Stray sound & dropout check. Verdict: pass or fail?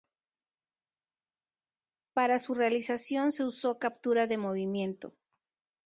pass